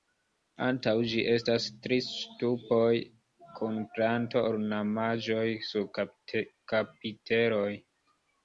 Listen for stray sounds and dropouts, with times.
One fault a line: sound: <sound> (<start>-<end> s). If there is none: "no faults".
no faults